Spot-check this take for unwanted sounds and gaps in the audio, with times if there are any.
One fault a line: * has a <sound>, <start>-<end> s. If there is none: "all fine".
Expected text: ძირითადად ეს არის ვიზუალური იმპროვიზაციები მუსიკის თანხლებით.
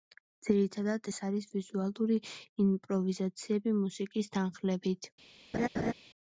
* has a laugh, 5.5-5.9 s